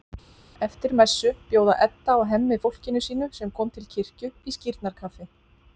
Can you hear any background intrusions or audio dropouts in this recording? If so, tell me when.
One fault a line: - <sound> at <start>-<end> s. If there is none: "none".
none